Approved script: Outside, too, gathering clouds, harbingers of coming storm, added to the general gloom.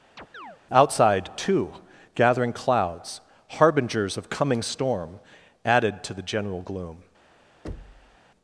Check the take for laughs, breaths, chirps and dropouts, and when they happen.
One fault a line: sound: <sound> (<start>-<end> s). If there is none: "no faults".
sound: chirp (0.2-0.6 s)
sound: thud (7.6-8.2 s)